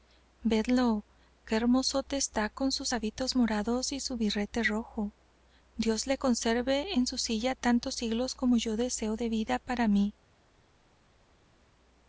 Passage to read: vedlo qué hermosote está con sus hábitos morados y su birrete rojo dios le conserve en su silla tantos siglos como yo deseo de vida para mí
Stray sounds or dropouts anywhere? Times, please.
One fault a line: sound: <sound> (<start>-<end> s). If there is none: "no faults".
no faults